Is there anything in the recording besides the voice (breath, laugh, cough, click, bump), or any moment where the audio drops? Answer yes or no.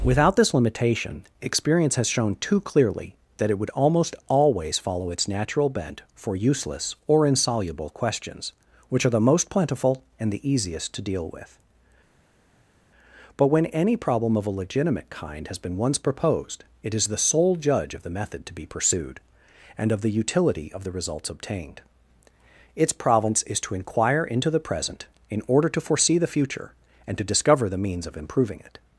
no